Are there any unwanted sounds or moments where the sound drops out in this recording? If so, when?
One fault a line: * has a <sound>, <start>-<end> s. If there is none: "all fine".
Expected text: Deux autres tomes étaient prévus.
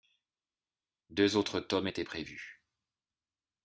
all fine